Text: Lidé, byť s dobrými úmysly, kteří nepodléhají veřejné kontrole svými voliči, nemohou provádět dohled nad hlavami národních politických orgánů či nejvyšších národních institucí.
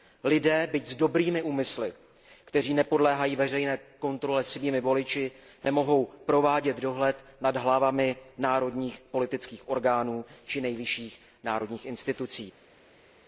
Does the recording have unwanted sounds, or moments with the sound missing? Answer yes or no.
no